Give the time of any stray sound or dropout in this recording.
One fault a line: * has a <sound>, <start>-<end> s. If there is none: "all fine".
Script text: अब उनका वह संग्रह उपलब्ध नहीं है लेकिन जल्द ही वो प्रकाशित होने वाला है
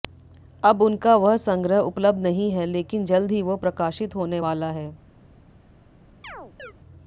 * has a chirp, 6.2-6.7 s